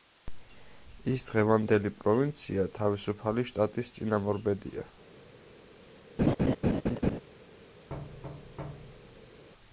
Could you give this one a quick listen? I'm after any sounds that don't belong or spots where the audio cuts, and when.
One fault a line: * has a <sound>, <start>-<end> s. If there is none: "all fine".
* has a laugh, 6.2-7.2 s
* has a thud, 7.9-9.4 s